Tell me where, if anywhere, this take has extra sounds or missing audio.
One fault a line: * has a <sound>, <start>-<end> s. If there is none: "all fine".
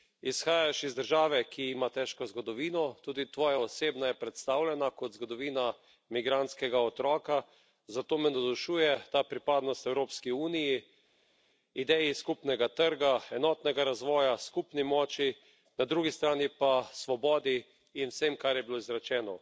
all fine